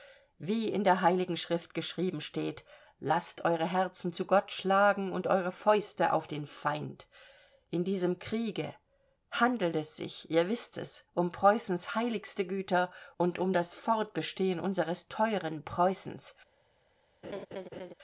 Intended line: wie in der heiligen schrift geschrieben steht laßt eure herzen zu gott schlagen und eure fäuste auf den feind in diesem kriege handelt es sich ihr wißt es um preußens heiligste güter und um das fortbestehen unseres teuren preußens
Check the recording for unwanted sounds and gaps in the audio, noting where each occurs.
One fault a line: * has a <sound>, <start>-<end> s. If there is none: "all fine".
* has a laugh, 17.2-17.9 s